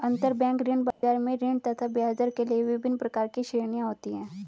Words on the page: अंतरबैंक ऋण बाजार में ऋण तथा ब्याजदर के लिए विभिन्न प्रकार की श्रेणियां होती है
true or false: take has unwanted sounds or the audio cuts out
true